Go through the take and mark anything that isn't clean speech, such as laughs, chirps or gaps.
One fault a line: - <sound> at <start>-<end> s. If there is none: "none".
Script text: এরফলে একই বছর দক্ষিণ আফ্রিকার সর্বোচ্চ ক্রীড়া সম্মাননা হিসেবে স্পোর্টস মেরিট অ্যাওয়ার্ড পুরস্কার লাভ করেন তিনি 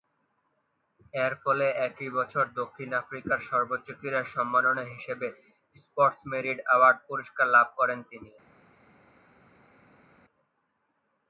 none